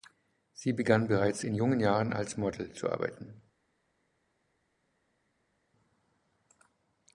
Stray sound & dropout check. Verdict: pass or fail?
pass